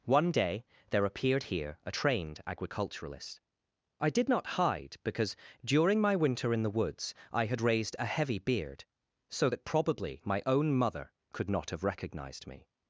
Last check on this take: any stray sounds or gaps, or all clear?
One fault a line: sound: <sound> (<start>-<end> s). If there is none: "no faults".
no faults